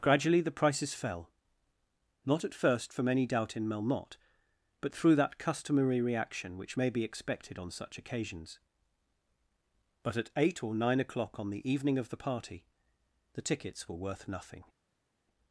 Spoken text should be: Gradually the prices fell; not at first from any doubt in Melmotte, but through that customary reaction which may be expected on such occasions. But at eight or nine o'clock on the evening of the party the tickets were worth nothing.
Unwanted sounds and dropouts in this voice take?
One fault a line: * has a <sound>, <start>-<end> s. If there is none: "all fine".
all fine